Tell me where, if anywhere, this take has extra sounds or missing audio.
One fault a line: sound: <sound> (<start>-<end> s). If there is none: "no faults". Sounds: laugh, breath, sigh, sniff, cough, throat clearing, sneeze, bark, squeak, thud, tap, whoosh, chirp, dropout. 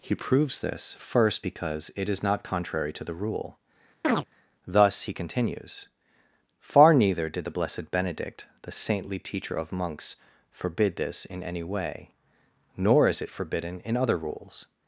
sound: chirp (4.0-4.3 s)